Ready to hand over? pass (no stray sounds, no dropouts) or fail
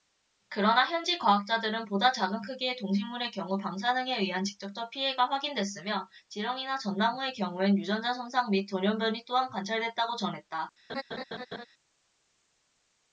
fail